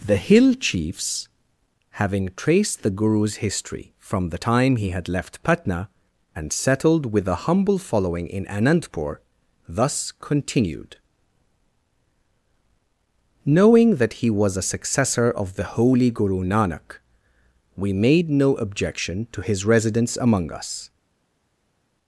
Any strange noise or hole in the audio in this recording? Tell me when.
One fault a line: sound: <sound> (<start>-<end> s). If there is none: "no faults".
no faults